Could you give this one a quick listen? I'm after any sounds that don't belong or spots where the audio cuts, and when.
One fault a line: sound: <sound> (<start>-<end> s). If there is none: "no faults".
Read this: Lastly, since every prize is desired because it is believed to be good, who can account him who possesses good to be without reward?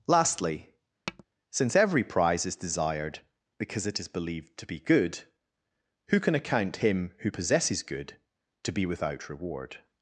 sound: tap (1.1-1.2 s)